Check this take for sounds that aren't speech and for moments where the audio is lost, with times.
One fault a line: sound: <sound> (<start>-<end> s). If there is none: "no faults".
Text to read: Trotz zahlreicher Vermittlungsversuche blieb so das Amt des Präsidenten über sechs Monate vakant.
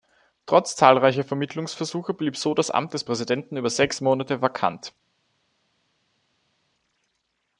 no faults